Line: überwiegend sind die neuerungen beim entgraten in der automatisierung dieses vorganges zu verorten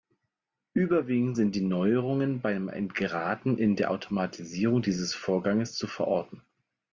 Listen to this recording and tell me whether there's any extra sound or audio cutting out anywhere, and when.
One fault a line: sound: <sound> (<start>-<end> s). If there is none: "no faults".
no faults